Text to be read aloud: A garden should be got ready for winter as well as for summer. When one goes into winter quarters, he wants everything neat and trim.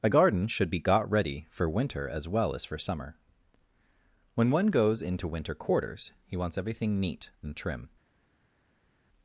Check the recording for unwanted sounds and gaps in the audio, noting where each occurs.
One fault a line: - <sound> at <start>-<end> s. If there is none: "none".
none